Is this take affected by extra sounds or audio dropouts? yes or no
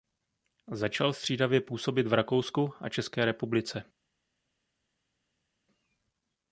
no